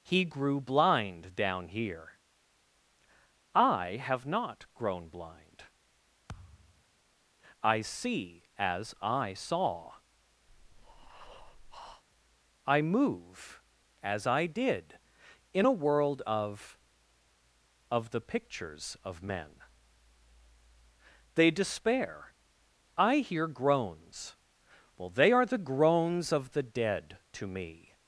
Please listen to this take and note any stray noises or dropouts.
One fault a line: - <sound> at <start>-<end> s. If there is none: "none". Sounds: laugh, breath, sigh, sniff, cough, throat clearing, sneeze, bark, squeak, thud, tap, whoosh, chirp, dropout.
- thud at 6.3-6.8 s
- breath at 10.5-12.0 s